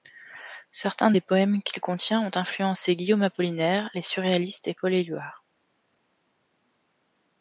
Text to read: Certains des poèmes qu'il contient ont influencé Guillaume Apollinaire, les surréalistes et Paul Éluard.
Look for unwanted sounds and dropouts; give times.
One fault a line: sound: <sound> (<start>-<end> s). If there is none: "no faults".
no faults